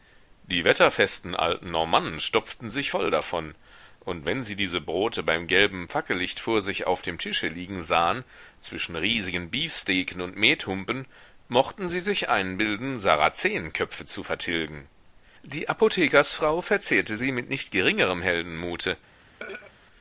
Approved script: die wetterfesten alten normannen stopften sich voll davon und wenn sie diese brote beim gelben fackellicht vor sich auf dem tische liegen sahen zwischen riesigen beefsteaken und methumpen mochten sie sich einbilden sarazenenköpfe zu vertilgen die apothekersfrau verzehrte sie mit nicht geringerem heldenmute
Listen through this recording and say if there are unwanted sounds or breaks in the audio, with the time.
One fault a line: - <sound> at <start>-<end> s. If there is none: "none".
- throat clearing at 19.4-19.7 s